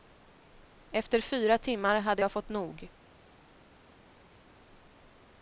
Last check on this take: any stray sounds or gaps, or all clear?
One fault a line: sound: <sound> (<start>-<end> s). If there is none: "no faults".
no faults